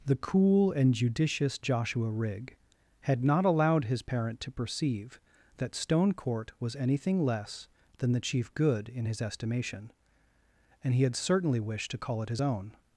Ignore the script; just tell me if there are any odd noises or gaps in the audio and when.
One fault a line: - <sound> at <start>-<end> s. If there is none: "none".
none